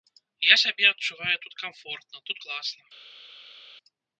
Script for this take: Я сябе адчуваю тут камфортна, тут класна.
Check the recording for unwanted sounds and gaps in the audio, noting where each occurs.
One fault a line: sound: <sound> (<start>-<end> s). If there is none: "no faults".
no faults